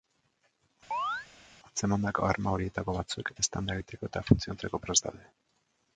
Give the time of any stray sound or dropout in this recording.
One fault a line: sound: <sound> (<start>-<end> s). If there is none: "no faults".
sound: chirp (0.9-1.3 s)